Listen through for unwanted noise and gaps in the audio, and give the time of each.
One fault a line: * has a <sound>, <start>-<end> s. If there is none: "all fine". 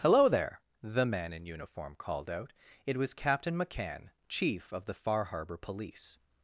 all fine